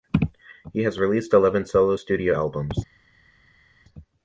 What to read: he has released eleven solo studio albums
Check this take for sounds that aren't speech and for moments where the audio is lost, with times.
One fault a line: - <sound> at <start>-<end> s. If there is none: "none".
none